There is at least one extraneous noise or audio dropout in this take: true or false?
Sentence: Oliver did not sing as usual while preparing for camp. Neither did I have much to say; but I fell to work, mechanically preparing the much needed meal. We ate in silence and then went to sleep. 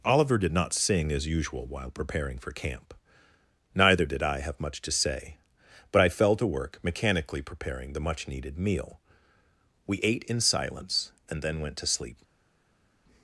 false